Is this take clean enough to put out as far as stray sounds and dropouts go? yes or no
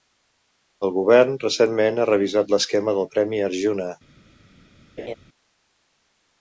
no